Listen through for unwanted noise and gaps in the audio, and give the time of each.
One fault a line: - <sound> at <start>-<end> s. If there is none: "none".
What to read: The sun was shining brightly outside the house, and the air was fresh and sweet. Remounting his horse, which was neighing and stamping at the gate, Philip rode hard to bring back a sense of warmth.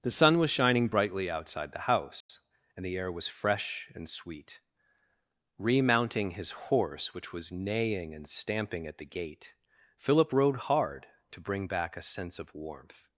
- dropout at 2.2-2.3 s